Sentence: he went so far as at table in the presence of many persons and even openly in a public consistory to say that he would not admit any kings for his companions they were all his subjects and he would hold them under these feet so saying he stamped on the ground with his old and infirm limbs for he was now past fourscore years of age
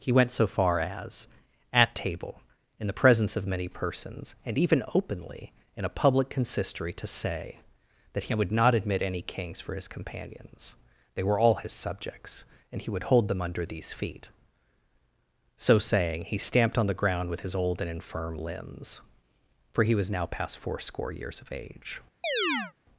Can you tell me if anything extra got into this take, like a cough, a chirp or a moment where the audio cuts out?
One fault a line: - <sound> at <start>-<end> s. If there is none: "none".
- chirp at 22.2-22.7 s